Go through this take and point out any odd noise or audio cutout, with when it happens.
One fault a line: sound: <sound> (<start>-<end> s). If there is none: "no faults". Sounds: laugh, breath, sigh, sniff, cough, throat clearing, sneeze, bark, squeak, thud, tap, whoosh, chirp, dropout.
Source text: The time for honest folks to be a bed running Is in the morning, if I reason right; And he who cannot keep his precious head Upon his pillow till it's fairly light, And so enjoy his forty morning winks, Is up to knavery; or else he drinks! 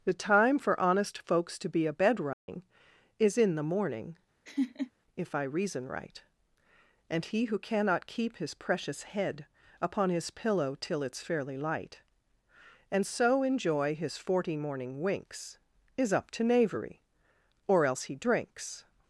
sound: dropout (2.3-2.5 s)
sound: laugh (4.4-4.9 s)